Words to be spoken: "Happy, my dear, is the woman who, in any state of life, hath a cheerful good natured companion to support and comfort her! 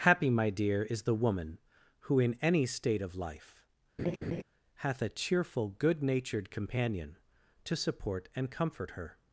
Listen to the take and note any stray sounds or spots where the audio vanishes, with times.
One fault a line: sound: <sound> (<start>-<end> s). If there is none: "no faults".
sound: laugh (4.0-4.4 s)